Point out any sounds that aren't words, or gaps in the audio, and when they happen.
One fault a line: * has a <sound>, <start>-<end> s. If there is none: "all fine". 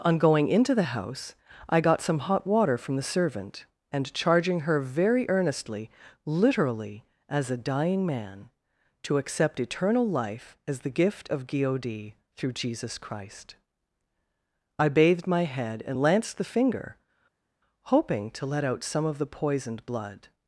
all fine